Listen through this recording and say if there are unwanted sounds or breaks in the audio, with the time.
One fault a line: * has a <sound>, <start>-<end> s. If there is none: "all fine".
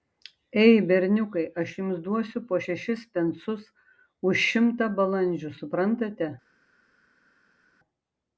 all fine